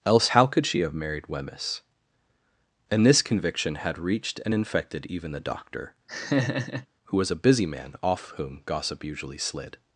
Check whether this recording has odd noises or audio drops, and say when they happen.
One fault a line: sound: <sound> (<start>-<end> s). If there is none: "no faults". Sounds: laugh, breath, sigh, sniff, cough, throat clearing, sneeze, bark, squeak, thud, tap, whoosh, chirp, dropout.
sound: laugh (6.1-6.9 s)